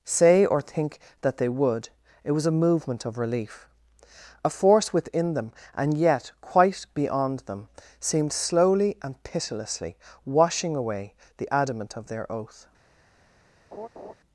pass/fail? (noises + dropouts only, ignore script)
fail